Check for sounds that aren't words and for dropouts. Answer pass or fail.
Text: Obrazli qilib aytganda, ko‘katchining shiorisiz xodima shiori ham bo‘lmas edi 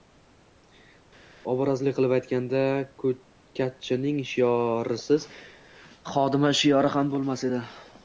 pass